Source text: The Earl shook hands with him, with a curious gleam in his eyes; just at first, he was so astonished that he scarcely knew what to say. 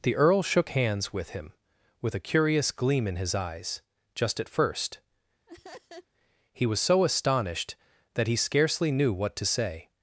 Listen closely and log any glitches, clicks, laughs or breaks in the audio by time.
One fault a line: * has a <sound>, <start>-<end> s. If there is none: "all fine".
* has a laugh, 5.5-6.1 s